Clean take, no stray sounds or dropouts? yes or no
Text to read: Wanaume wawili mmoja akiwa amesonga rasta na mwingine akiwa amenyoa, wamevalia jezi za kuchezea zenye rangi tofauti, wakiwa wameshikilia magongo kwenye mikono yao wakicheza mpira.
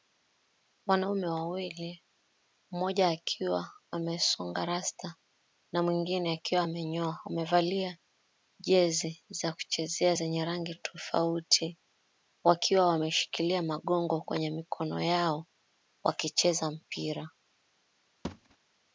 no